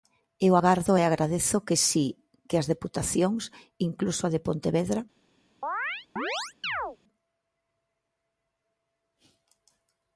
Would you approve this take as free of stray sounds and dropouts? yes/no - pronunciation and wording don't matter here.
no